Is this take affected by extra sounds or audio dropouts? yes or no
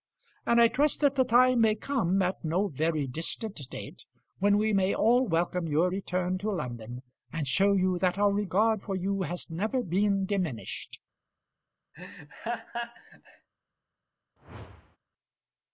yes